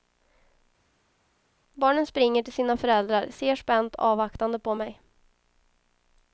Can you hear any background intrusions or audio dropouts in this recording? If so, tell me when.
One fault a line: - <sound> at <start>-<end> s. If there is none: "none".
none